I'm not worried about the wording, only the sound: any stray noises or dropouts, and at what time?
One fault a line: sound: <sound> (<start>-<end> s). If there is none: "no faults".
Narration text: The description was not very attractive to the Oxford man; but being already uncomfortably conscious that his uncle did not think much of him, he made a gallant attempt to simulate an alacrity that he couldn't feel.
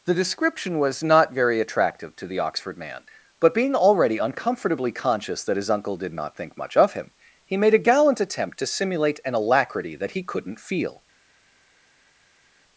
no faults